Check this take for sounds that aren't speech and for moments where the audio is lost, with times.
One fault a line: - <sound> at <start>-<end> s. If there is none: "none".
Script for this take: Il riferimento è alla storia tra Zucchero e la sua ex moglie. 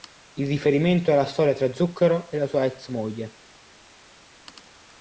none